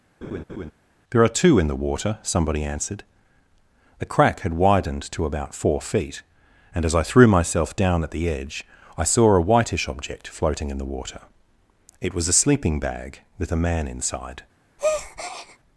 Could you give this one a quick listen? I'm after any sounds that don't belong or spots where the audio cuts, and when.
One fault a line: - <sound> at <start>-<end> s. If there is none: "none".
- laugh at 0.2-0.7 s
- breath at 14.8-15.6 s